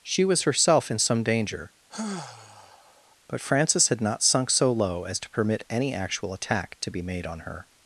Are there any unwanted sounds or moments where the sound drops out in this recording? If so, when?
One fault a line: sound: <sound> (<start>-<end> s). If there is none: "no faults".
sound: sigh (1.9-3.2 s)